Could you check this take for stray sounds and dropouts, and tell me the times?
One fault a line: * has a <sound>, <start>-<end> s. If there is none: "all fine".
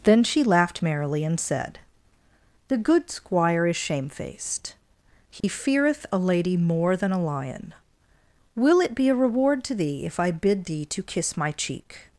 * has a dropout, 5.4-5.4 s